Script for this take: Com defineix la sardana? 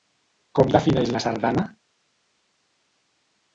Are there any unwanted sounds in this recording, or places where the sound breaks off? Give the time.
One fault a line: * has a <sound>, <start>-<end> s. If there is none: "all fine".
all fine